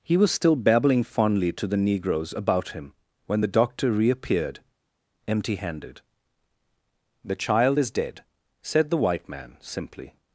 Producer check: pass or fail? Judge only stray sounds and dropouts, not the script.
pass